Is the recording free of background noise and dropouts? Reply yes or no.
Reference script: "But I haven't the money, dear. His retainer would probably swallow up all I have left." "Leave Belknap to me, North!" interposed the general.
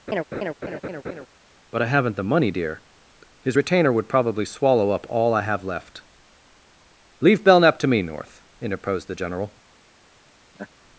no